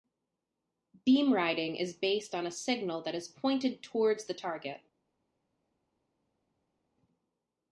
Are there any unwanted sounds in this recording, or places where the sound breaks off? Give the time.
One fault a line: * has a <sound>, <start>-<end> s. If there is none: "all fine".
all fine